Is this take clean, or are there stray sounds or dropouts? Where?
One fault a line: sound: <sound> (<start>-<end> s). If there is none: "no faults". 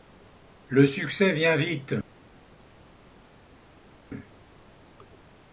no faults